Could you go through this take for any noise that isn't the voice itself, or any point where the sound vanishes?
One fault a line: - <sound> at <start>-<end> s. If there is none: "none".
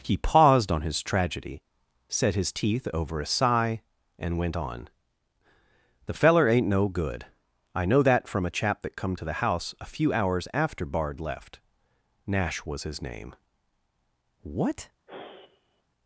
- sigh at 15.1-15.8 s